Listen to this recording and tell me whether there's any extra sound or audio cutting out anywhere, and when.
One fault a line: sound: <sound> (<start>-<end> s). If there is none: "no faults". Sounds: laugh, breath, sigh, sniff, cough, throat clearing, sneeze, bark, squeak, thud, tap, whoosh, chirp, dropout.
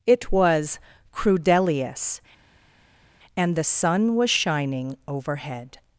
no faults